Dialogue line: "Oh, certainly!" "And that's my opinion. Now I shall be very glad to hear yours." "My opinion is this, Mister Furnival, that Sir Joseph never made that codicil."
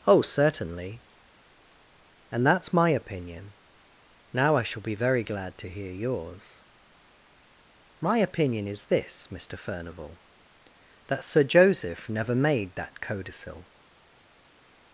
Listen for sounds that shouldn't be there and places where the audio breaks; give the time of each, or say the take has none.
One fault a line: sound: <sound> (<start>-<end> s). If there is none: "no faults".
no faults